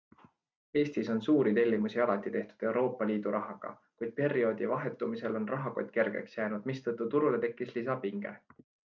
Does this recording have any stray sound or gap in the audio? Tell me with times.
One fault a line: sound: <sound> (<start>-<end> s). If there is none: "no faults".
no faults